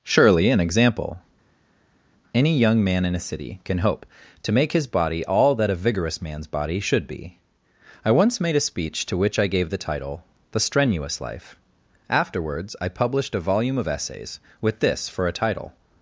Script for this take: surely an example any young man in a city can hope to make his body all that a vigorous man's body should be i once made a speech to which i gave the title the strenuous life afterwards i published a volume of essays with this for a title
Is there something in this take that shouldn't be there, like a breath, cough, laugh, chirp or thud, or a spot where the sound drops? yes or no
no